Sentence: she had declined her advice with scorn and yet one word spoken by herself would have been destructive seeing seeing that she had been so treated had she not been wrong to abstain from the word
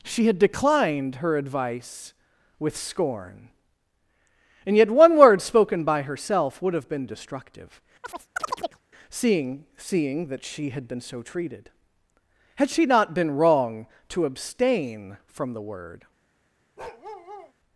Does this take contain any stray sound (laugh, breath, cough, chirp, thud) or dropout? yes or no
yes